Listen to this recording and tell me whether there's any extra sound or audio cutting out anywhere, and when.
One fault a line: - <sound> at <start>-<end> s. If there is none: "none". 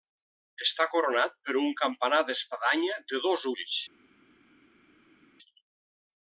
none